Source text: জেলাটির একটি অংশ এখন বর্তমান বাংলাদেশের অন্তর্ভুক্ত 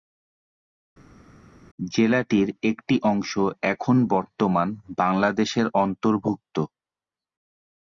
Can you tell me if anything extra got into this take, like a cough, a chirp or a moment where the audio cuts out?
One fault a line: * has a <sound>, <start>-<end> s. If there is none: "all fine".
all fine